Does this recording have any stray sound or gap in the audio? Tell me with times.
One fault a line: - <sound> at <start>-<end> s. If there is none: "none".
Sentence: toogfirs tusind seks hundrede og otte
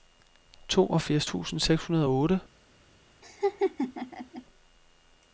- laugh at 3.2-4.4 s